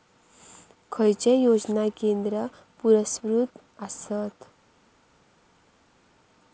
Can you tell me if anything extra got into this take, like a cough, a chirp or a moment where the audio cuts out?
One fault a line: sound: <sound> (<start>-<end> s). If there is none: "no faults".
no faults